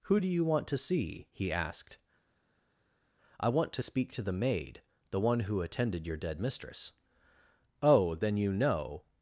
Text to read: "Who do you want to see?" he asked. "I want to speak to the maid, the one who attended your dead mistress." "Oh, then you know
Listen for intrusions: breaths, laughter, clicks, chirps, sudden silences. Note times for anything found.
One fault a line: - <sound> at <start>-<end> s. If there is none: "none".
none